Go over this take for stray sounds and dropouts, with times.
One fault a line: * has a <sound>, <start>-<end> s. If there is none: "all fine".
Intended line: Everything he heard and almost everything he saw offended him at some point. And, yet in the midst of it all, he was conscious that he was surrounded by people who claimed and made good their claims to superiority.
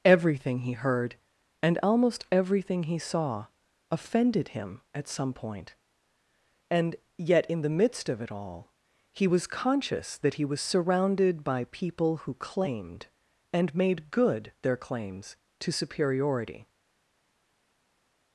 all fine